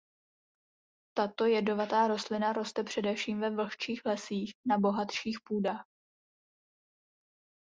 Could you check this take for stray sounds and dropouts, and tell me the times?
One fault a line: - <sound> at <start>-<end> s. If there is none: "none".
none